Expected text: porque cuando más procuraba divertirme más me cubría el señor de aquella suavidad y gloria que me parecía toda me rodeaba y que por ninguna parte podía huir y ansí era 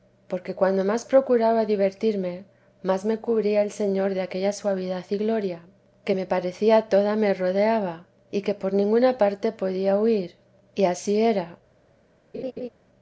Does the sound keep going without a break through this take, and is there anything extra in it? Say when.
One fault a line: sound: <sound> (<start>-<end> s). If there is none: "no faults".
sound: laugh (12.3-12.7 s)